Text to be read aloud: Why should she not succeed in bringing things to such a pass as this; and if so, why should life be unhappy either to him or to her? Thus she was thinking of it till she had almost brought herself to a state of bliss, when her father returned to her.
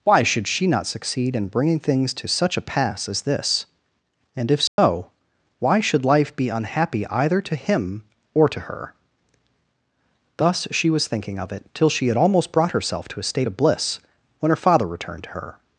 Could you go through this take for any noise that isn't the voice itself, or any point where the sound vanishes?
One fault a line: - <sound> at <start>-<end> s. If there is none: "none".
- dropout at 4.7-4.8 s